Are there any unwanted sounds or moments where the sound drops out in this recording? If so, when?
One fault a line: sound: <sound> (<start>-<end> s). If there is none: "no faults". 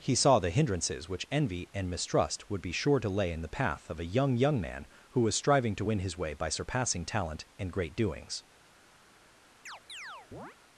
sound: chirp (9.7-10.6 s)